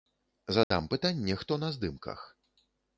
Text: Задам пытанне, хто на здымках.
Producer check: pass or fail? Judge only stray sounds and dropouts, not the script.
fail